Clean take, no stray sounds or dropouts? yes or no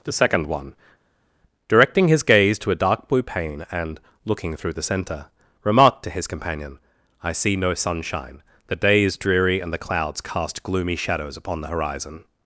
yes